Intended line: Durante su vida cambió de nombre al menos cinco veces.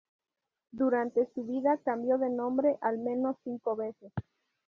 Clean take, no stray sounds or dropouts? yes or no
yes